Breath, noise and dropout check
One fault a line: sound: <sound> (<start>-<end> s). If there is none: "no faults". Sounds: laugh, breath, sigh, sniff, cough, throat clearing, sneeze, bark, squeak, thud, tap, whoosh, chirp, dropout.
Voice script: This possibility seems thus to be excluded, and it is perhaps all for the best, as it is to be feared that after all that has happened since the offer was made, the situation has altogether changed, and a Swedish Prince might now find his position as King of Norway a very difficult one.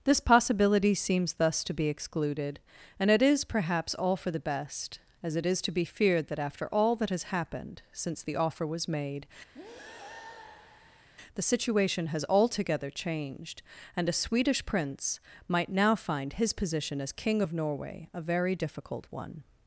sound: breath (9.5-11.1 s)